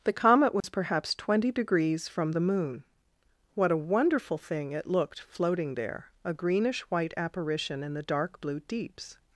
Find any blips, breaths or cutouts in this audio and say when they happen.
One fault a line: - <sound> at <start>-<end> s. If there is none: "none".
- dropout at 0.6-0.6 s